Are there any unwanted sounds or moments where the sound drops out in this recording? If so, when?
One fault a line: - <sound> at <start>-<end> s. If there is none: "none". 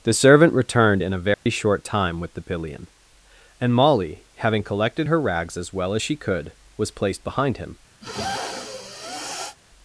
- dropout at 1.3-1.5 s
- sniff at 8.0-9.6 s